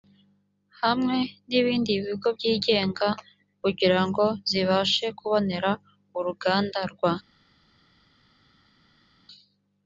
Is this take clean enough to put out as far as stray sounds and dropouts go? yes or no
yes